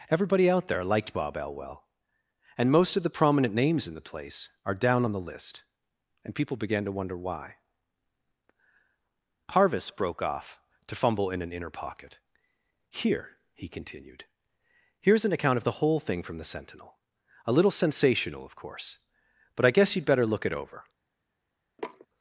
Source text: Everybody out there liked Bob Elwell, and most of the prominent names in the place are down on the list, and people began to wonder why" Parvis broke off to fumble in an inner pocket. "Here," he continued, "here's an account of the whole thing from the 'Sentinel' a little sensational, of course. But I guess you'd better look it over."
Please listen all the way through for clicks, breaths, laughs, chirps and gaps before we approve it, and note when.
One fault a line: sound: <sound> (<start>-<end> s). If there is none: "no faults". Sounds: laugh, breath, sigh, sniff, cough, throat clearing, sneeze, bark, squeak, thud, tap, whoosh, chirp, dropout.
sound: sniff (21.8-22.1 s)